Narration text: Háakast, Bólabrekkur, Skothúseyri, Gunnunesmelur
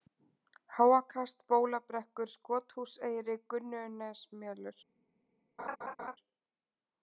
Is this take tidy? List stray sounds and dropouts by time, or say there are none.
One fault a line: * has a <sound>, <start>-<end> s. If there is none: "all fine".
* has a laugh, 5.6-6.2 s